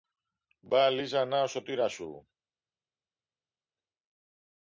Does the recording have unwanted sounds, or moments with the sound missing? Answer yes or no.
no